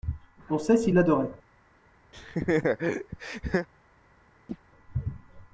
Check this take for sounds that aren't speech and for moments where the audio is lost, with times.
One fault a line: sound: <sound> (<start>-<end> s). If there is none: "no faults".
sound: laugh (2.1-3.7 s)
sound: chirp (4.5-4.6 s)